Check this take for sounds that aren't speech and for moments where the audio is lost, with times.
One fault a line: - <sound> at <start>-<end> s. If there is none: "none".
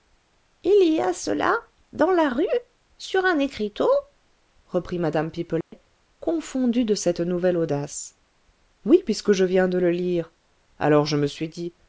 - dropout at 5.6-5.7 s